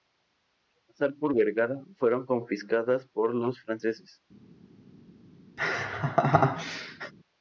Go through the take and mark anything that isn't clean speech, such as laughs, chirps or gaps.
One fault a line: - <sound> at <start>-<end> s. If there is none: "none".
- laugh at 5.6-7.1 s